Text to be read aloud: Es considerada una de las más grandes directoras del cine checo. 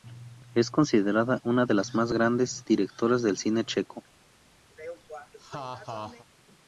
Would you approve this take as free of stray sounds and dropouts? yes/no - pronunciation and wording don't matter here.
no